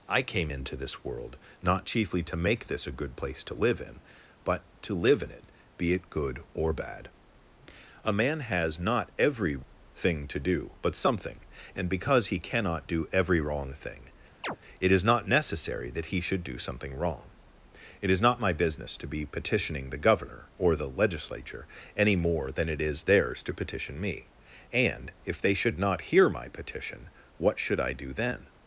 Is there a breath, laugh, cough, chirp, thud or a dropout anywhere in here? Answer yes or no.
yes